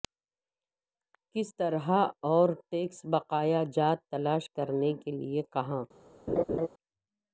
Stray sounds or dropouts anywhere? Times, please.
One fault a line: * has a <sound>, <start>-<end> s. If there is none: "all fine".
* has a laugh, 6.3-6.7 s